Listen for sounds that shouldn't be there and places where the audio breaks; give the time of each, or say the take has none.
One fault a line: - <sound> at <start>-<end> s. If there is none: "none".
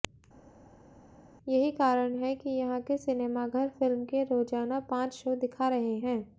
none